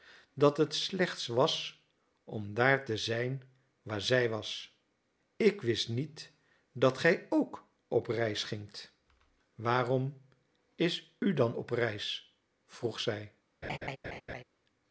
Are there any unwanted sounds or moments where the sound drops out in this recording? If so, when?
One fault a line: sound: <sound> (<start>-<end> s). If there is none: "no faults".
sound: laugh (13.6-14.4 s)